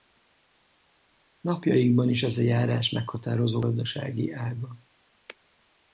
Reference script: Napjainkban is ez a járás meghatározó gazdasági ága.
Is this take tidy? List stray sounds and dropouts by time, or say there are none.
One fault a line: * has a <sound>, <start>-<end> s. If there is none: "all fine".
all fine